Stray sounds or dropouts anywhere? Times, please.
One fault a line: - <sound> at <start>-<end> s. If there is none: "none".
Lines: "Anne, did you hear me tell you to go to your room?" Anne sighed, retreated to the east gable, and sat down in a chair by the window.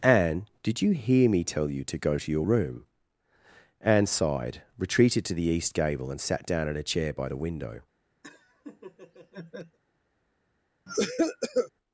- laugh at 8.2-9.8 s
- cough at 10.9-11.7 s